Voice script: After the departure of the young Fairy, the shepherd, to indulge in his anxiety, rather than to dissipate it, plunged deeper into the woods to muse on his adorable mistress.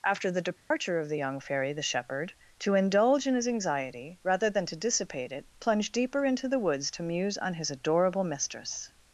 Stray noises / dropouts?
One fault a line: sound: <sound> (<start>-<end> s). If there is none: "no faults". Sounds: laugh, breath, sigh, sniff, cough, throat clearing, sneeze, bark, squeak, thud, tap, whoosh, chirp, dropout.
sound: dropout (0.6-0.7 s)